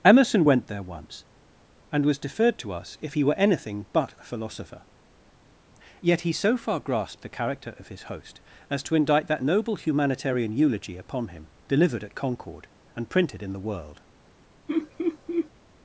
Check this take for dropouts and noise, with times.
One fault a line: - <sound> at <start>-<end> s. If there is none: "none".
- laugh at 14.7-15.5 s